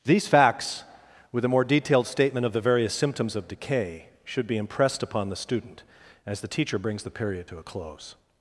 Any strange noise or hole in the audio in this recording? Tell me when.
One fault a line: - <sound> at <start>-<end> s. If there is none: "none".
none